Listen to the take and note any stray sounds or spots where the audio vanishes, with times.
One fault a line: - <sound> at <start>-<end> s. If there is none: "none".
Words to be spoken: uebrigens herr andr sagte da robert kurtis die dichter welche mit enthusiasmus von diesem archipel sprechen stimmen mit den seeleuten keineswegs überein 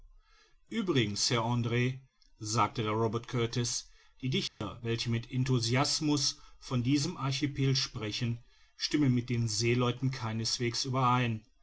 - dropout at 4.5-4.6 s